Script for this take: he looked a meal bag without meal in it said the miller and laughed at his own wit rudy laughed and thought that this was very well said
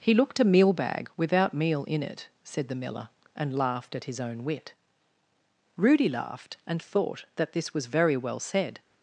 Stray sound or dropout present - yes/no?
no